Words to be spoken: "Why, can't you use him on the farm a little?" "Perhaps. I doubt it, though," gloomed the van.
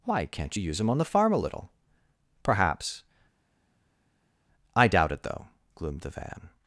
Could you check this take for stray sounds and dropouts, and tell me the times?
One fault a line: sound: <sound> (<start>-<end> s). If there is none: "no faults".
no faults